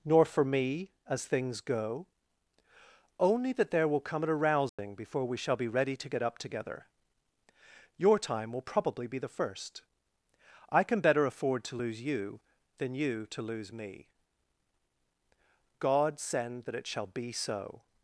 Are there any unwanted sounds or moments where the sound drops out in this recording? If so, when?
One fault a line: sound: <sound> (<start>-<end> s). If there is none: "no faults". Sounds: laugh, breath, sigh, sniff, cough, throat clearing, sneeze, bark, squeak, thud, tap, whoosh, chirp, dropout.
sound: dropout (4.7-4.8 s)